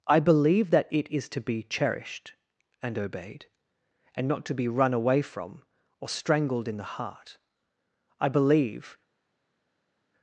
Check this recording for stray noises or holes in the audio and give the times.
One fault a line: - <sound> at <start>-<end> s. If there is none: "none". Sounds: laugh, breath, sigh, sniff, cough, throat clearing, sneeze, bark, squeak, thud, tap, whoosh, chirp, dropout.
none